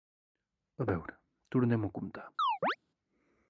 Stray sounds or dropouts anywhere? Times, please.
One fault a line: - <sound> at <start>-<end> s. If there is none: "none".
- chirp at 2.4-2.8 s